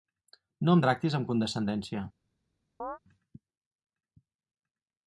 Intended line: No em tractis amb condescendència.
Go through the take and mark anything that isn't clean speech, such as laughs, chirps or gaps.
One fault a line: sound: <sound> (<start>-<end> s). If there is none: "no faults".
sound: chirp (2.8-3.0 s)